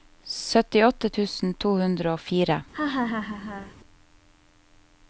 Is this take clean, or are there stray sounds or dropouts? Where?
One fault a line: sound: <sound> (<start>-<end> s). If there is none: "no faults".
sound: laugh (2.7-3.8 s)